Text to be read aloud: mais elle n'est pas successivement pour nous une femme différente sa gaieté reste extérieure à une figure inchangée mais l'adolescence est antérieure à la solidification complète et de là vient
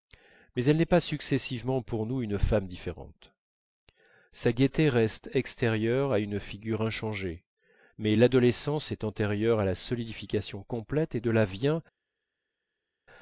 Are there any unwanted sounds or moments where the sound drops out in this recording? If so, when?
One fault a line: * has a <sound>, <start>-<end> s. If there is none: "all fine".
all fine